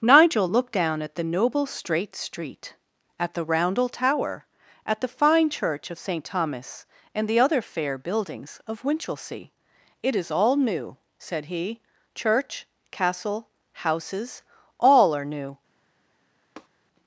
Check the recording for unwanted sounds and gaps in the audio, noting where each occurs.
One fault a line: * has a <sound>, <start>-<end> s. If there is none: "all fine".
* has a tap, 16.6-16.7 s